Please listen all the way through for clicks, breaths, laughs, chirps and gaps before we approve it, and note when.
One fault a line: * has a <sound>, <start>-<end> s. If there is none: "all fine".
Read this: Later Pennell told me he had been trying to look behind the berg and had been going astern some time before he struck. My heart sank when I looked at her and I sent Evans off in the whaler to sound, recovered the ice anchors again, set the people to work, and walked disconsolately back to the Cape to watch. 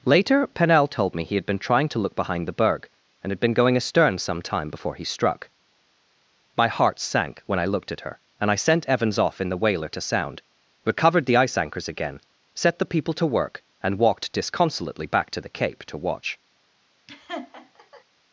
* has a laugh, 17.1-18.0 s